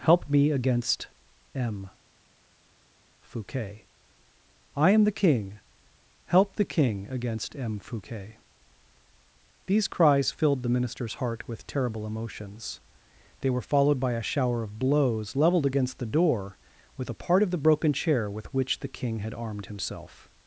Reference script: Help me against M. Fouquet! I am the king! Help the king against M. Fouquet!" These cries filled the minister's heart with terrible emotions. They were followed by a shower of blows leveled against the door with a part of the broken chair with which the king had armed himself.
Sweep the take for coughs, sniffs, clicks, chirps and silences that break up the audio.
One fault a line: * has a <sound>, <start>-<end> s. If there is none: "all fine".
all fine